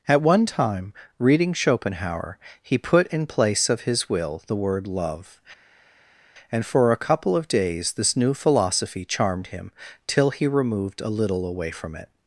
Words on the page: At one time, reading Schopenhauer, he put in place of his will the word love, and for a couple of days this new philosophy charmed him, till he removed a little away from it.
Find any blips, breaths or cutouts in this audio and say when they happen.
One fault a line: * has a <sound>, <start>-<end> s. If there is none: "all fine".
all fine